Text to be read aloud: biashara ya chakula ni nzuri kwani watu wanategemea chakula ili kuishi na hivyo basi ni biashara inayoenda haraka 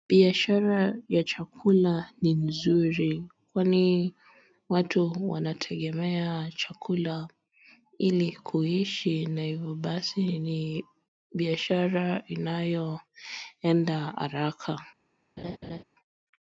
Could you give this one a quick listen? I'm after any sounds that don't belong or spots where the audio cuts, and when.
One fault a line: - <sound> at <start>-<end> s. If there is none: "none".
- laugh at 15.4-15.8 s